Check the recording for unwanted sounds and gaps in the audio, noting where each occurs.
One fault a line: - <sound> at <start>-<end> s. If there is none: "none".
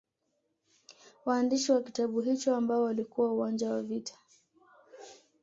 none